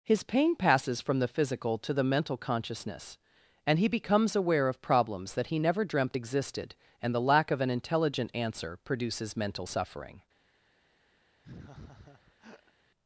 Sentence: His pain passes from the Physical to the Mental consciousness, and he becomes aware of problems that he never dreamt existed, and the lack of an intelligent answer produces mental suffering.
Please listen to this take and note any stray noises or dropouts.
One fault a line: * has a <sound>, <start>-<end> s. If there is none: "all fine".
* has a laugh, 11.4-12.7 s